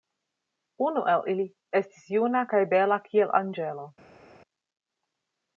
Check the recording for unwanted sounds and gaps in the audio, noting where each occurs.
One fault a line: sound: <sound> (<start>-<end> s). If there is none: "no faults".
no faults